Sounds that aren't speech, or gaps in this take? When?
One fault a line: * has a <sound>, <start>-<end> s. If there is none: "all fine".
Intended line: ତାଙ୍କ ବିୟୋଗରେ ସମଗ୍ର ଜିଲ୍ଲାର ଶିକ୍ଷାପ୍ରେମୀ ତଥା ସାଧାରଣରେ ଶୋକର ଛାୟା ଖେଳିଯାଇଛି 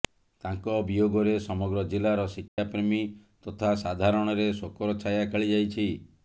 * has a dropout, 2.5-2.6 s